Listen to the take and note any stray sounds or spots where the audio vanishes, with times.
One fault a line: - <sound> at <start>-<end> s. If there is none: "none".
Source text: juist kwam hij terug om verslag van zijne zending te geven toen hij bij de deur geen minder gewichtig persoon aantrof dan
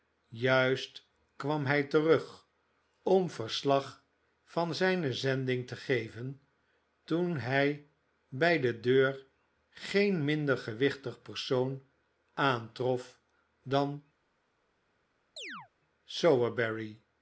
- chirp at 15.4-15.7 s